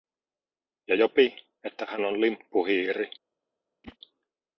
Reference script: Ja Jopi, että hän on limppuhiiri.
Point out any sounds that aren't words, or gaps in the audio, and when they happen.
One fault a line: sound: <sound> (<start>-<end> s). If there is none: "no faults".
sound: whoosh (3.8-4.0 s)